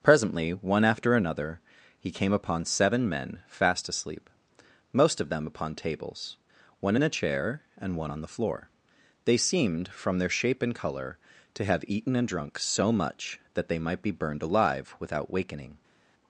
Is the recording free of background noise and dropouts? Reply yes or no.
yes